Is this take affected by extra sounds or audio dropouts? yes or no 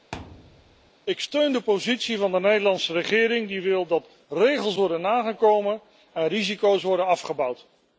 yes